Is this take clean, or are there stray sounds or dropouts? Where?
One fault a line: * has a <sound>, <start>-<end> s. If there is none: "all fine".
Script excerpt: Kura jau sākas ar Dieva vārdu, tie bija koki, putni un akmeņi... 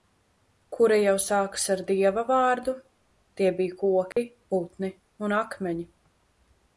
* has a dropout, 4.1-4.2 s